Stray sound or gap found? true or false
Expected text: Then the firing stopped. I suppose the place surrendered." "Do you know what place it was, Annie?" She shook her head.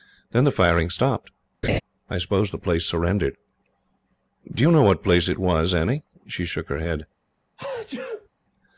true